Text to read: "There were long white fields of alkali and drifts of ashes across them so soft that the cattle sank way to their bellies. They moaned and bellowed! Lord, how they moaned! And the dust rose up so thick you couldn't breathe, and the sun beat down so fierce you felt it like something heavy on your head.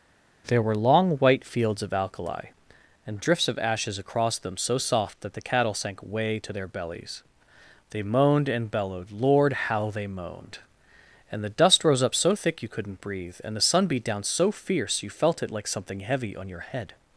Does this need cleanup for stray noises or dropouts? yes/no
no